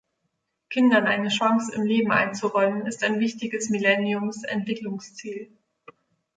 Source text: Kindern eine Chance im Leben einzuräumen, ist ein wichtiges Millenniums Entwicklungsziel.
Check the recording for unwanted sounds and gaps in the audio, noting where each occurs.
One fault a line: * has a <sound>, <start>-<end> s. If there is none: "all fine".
all fine